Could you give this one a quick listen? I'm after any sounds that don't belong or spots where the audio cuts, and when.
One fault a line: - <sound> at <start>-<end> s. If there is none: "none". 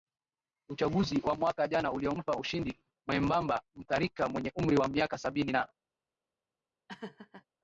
- laugh at 6.9-7.4 s